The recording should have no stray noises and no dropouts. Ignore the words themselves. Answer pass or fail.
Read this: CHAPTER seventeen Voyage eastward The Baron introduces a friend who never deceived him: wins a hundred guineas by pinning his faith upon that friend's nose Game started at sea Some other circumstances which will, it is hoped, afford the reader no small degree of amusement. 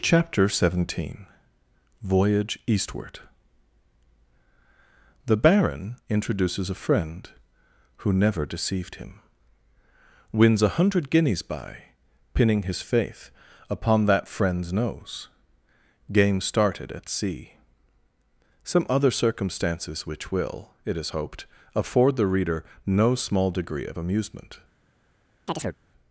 fail